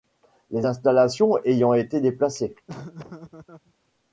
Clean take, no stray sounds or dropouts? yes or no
no